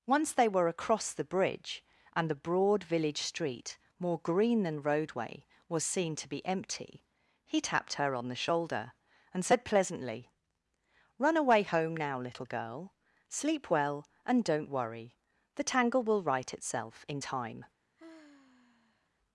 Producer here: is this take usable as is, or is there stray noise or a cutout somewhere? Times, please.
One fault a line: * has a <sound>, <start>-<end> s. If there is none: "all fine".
* has a sigh, 18.0-19.1 s